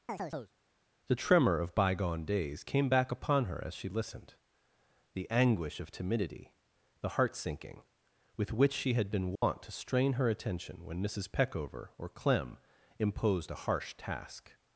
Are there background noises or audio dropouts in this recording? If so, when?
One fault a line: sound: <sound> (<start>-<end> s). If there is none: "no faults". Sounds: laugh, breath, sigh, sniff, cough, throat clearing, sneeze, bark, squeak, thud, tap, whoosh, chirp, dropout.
sound: chirp (0.1-0.5 s)
sound: dropout (9.4-9.4 s)